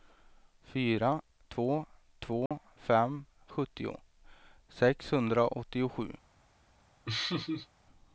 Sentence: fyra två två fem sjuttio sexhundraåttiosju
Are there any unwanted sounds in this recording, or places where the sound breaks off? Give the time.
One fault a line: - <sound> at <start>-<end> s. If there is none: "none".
- dropout at 2.5-2.5 s
- laugh at 7.1-7.7 s